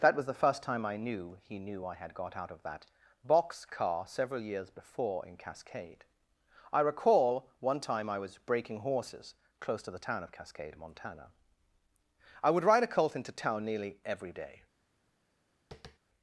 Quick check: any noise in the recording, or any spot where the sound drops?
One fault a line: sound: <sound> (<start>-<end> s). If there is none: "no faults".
sound: tap (15.7-16.0 s)